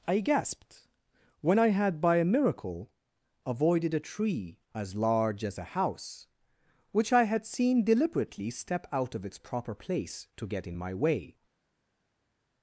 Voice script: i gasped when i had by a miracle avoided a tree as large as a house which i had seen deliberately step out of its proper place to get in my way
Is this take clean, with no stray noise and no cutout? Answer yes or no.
yes